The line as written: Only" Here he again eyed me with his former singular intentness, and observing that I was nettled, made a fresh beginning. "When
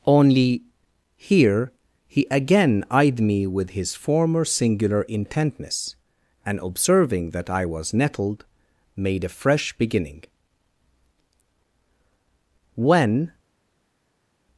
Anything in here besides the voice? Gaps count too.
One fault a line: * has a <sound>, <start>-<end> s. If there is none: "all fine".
all fine